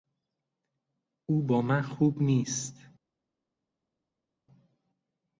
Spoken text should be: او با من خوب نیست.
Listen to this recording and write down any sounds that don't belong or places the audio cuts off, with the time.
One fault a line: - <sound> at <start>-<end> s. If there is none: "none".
none